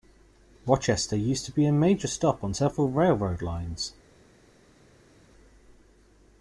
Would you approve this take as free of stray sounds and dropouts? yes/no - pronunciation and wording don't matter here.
yes